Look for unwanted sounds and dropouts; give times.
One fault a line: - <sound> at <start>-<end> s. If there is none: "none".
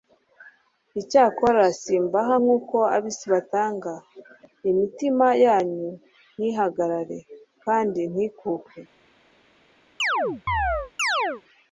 - chirp at 10.0-11.4 s